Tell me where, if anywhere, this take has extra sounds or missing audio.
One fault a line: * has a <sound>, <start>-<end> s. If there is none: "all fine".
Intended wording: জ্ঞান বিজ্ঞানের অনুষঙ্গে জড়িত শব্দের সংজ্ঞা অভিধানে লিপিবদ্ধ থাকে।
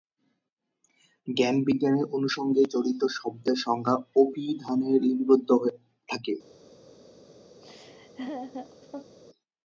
* has a laugh, 7.6-9.2 s